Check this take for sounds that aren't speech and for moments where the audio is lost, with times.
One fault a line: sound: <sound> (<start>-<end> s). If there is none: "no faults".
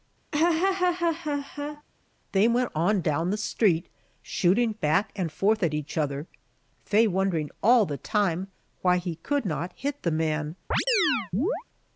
sound: laugh (0.3-1.8 s)
sound: chirp (10.7-11.6 s)